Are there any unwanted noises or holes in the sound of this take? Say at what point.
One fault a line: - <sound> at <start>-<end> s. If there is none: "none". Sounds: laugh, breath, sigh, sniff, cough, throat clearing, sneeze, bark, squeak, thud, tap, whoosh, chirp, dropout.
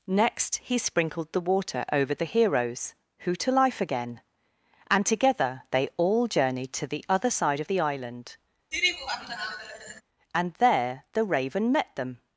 - laugh at 8.7-10.0 s